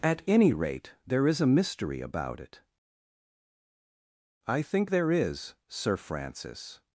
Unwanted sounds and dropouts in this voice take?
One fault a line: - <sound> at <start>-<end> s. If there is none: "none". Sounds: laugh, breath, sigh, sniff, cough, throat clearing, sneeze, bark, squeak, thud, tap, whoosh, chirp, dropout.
none